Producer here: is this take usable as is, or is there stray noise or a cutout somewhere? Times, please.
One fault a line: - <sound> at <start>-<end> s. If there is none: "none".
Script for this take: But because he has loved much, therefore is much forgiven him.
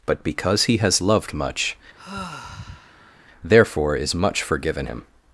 - sigh at 2.0-3.2 s